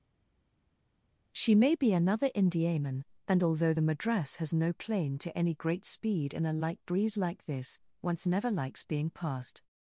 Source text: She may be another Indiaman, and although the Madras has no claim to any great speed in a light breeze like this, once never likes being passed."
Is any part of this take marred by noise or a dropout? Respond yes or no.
no